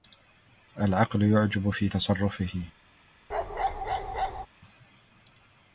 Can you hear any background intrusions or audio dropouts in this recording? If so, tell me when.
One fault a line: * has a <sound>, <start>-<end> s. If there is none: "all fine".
* has a bark, 3.3-4.5 s